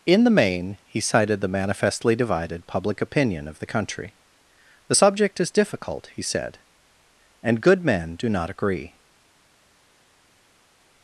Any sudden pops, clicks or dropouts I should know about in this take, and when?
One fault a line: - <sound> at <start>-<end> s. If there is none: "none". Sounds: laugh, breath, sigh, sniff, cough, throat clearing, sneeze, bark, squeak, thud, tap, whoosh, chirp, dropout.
none